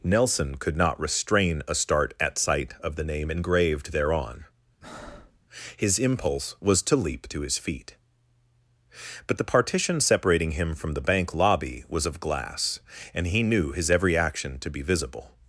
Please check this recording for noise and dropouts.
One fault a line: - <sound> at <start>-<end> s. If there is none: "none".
- breath at 4.8-5.4 s